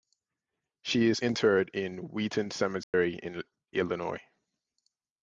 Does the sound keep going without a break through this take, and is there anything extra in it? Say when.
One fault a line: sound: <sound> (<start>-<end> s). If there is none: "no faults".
sound: dropout (2.8-2.9 s)